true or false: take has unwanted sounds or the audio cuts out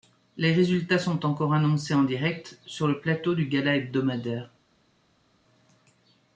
false